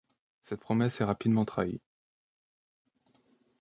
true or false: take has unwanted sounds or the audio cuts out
false